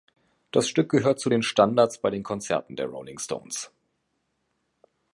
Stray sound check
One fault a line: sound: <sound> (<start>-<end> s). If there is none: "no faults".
no faults